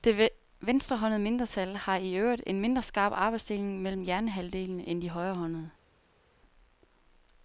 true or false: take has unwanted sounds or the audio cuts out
false